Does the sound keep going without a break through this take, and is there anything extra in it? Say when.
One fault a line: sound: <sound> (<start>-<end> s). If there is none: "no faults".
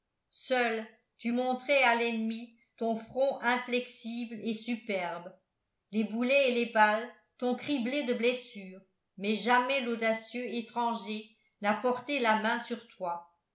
no faults